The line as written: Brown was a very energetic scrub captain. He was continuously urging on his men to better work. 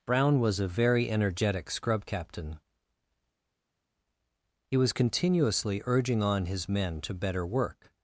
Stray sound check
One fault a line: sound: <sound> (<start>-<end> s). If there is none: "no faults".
no faults